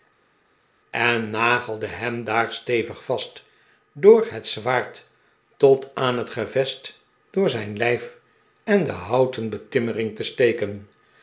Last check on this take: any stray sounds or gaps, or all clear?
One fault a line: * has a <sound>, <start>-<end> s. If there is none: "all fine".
all fine